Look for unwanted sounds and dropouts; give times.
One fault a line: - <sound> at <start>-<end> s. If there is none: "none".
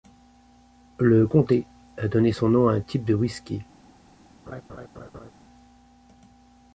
- laugh at 4.5-5.3 s